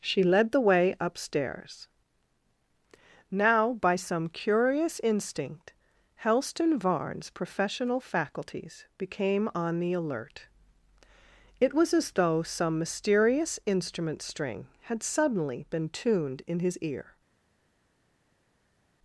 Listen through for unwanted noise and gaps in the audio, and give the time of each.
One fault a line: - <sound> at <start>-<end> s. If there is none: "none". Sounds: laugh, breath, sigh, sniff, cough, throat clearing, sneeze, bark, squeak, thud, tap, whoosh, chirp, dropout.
none